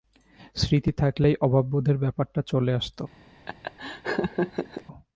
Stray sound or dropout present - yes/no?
yes